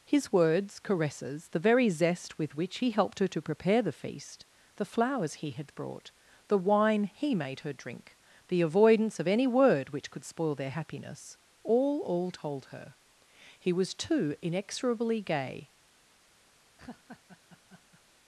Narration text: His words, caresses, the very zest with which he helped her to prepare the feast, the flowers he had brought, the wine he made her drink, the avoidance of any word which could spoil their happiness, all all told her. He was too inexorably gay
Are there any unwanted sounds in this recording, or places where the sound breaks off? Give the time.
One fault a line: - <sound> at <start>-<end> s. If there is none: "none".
- laugh at 16.8-18.0 s